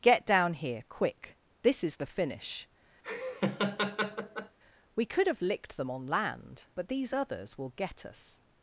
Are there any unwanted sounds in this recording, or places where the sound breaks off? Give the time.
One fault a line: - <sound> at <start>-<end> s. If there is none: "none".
- laugh at 3.0-4.6 s